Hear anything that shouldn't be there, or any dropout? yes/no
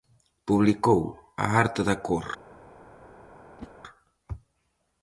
yes